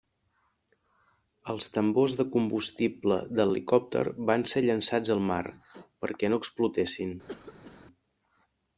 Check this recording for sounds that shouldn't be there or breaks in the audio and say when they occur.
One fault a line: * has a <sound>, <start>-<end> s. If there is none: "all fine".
* has a cough, 7.3-7.9 s